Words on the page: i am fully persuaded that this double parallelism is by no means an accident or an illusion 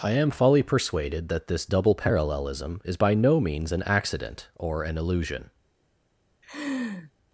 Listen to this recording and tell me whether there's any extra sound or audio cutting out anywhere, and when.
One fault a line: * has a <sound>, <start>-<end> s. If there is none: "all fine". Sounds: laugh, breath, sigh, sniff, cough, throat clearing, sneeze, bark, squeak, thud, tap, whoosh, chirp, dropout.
* has a laugh, 6.4-7.1 s